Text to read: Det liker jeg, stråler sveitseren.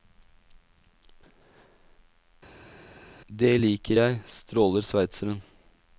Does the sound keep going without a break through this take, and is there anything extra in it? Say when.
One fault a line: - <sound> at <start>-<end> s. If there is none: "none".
none